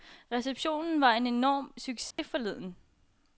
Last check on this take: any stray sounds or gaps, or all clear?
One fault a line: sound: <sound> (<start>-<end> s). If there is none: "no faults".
sound: dropout (2.1-2.2 s)